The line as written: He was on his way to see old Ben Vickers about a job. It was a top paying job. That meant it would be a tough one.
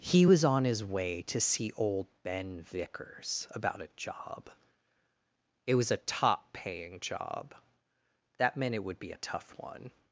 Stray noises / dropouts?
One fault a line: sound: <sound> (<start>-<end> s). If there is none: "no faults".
no faults